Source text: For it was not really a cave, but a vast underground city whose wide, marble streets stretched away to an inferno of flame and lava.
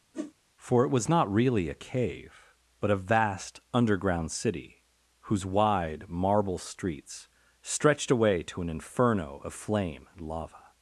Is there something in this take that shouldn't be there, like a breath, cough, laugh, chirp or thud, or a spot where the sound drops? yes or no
yes